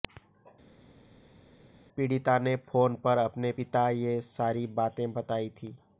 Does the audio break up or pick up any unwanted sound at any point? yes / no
no